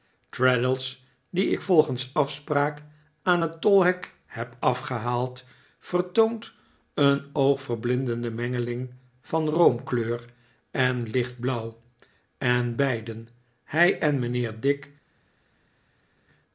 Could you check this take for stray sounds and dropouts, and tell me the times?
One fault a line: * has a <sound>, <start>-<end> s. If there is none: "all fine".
all fine